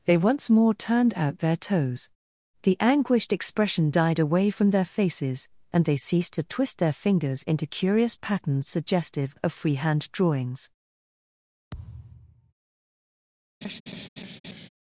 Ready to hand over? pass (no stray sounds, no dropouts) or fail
fail